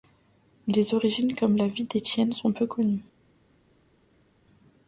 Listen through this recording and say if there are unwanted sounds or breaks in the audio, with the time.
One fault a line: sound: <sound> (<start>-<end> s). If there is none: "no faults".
no faults